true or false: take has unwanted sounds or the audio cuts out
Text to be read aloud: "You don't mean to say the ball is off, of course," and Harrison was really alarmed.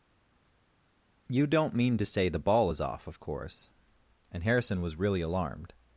false